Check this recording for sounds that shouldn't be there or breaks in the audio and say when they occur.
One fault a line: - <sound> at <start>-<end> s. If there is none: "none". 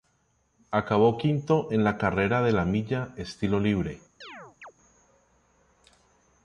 - chirp at 4.2-4.7 s